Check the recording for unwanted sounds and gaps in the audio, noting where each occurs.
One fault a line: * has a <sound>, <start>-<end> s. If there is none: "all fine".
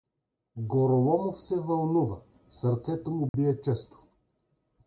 * has a dropout, 3.3-3.3 s